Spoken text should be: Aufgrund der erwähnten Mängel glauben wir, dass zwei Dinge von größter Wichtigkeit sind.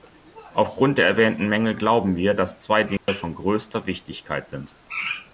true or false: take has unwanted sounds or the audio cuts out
true